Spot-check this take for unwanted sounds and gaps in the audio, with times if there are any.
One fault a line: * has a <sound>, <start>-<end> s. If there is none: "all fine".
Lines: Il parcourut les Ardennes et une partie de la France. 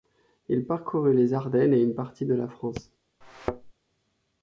* has a thud, 3.2-3.7 s